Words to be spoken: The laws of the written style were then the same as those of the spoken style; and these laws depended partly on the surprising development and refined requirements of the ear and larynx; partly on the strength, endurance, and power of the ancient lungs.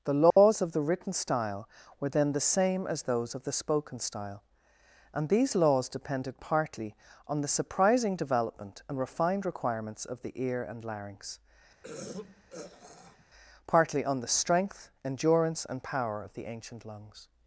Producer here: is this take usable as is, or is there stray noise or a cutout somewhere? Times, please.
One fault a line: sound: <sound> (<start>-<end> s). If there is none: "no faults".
sound: dropout (0.3-0.4 s)
sound: throat clearing (11.8-13.3 s)